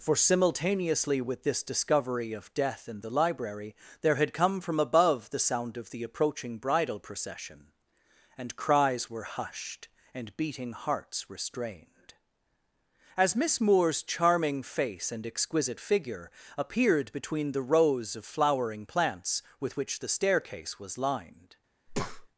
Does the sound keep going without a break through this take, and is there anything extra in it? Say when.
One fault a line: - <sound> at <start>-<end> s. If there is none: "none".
- breath at 21.9-22.3 s